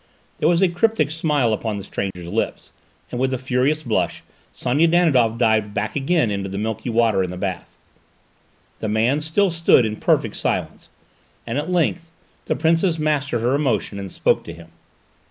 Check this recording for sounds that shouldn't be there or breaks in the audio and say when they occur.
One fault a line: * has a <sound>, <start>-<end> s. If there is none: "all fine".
* has a dropout, 2.1-2.2 s